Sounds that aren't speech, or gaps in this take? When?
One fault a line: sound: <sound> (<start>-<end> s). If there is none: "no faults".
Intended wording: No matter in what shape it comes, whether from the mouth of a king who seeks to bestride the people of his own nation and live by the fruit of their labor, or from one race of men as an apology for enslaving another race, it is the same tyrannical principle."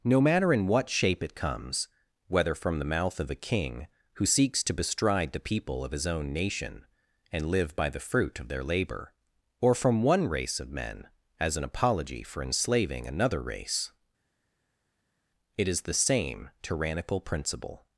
no faults